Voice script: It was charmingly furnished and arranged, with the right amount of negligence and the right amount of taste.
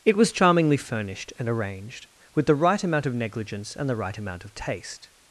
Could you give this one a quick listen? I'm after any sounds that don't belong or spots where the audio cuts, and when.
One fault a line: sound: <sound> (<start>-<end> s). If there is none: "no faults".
no faults